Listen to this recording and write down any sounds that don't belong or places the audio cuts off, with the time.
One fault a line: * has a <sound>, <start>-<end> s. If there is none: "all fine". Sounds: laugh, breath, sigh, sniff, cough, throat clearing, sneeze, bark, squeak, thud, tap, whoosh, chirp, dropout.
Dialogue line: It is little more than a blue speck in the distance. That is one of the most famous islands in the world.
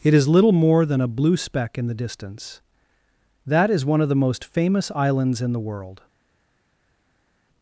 all fine